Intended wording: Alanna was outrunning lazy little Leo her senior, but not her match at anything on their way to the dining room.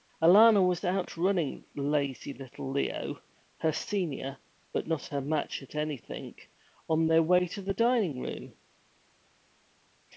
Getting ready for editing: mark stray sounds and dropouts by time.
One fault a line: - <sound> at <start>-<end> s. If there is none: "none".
none